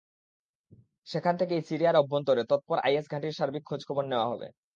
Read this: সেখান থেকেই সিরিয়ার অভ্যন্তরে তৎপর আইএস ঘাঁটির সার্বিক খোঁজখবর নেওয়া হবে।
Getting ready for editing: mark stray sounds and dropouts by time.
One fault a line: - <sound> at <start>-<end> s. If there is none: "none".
none